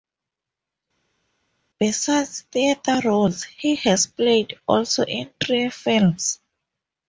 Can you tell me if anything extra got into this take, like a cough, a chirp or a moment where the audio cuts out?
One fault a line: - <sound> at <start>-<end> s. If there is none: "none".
none